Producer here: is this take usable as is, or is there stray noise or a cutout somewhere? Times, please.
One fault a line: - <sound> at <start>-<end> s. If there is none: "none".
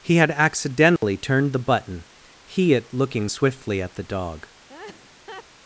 - dropout at 1.0-1.0 s
- laugh at 4.7-5.4 s